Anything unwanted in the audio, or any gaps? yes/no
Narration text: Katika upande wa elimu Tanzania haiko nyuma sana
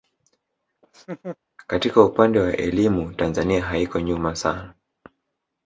yes